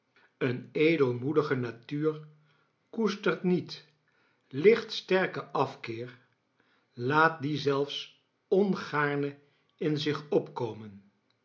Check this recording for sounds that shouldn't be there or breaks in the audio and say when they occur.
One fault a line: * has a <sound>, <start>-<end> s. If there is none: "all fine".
all fine